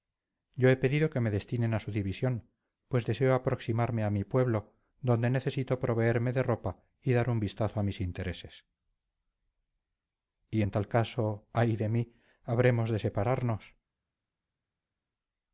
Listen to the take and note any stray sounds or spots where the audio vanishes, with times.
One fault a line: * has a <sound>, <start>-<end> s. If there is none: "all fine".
all fine